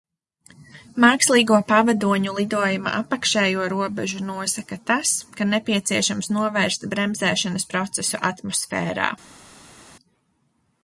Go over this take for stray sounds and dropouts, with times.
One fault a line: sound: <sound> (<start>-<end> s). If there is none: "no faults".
no faults